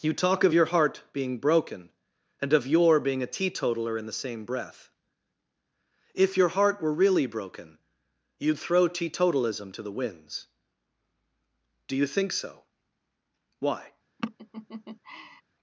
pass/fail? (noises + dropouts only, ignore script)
fail